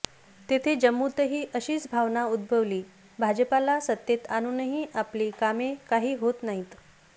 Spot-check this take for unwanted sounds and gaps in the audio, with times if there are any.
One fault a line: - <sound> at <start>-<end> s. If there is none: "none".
none